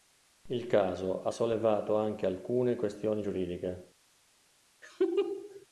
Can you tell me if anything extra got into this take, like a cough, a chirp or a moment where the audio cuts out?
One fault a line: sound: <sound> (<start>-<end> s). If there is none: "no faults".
sound: laugh (4.8-5.7 s)